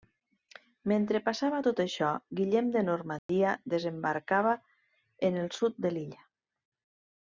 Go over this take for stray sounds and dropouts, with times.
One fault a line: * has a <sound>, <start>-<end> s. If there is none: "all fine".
* has a dropout, 3.2-3.3 s